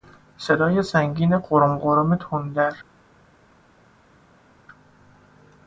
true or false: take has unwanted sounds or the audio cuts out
false